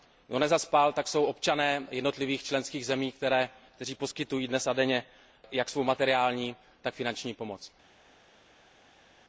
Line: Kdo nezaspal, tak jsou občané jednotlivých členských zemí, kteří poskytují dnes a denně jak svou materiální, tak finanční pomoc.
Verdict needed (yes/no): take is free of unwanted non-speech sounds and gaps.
yes